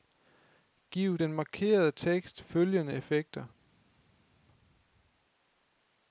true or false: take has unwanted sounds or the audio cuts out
false